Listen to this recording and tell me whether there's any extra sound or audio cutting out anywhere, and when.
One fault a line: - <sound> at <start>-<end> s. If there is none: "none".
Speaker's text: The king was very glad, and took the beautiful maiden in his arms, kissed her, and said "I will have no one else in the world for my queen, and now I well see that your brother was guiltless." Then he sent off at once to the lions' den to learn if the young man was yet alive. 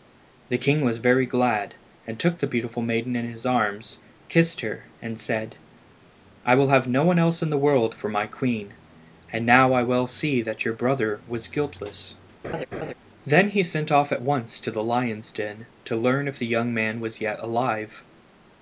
- laugh at 12.4-12.9 s